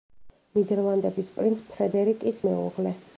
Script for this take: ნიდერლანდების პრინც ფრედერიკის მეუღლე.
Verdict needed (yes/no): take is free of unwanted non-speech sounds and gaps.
yes